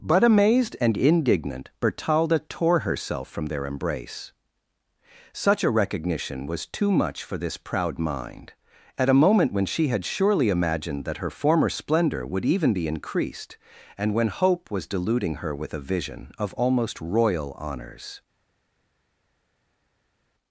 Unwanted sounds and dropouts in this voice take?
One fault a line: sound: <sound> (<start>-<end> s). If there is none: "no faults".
no faults